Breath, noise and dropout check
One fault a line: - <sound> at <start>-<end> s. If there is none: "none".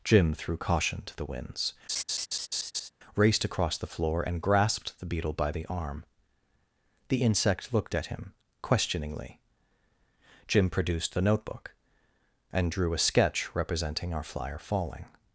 - laugh at 1.9-2.9 s